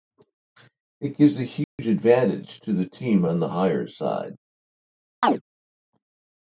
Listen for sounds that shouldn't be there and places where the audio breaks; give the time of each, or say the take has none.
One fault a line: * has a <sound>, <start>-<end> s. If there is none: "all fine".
* has a dropout, 1.6-1.8 s
* has a chirp, 5.2-5.4 s